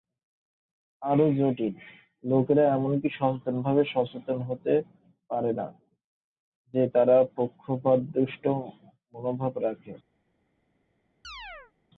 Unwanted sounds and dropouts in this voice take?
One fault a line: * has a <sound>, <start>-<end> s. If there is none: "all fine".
* has a chirp, 11.2-11.7 s